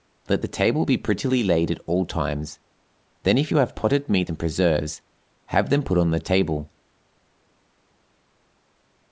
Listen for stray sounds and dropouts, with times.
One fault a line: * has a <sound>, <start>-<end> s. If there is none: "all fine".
all fine